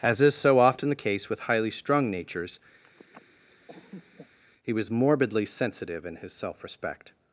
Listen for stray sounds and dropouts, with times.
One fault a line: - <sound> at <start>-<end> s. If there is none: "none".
- laugh at 2.8-4.4 s